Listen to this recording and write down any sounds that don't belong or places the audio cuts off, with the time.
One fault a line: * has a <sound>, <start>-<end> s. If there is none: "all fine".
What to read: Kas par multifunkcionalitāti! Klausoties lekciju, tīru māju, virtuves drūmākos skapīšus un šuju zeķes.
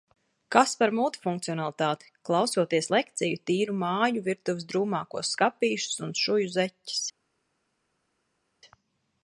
all fine